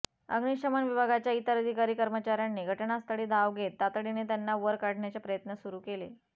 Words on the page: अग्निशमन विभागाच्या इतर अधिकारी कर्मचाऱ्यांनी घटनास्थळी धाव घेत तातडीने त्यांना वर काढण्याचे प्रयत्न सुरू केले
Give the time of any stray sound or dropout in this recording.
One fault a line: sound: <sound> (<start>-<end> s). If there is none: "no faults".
no faults